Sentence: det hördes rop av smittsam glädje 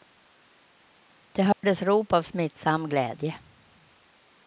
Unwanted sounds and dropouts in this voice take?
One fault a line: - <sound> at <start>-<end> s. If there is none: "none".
- dropout at 1.5-1.6 s